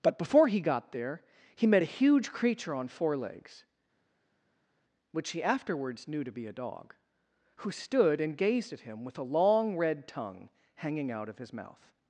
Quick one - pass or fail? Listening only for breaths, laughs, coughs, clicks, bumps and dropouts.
pass